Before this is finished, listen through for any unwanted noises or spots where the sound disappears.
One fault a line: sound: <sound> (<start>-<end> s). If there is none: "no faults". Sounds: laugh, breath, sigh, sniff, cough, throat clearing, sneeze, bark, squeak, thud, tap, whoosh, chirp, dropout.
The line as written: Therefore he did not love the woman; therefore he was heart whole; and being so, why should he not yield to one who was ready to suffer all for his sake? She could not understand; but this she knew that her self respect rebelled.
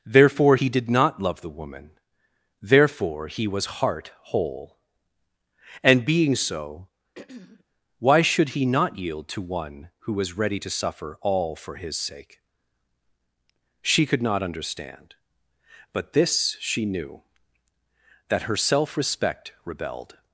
sound: throat clearing (7.2-7.6 s)